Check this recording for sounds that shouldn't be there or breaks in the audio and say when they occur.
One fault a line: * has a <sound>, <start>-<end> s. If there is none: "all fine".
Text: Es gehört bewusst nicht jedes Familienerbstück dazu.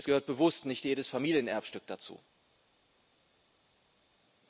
all fine